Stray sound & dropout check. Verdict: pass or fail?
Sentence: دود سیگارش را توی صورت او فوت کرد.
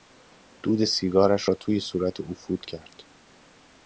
pass